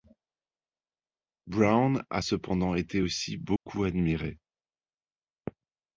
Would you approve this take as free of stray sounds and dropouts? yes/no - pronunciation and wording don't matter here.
no